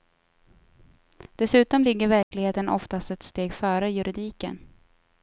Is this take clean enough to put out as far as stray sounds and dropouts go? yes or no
no